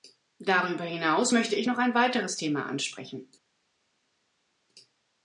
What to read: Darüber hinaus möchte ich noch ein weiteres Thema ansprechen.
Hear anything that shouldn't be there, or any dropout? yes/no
no